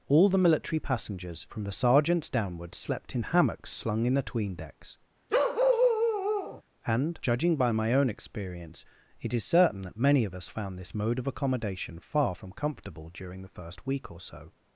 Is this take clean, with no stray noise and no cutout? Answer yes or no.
no